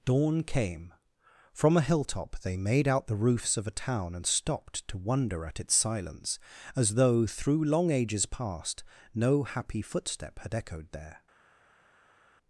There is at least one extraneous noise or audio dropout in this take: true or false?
false